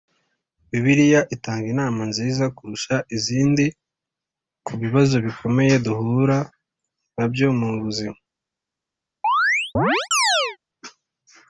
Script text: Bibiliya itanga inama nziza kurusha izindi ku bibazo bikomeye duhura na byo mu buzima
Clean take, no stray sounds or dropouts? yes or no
no